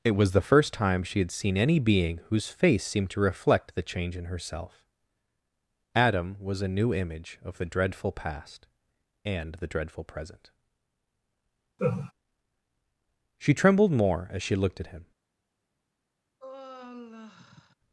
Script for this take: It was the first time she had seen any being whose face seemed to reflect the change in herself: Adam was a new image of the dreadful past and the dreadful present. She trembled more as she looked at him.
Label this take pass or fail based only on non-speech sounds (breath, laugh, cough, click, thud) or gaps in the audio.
fail